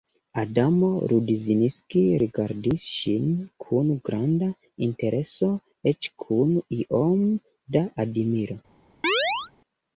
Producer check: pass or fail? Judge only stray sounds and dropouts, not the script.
fail